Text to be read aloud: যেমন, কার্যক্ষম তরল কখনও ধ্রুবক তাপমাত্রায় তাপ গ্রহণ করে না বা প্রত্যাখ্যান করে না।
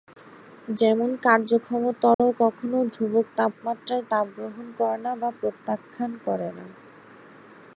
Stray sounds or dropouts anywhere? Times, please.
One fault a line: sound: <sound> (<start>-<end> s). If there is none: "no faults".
sound: dropout (2.1-2.2 s)